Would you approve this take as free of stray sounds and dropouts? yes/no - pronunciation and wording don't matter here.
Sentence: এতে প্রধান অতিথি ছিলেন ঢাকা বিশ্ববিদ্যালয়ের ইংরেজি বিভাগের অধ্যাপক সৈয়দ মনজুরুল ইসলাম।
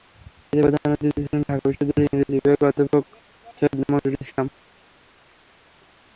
yes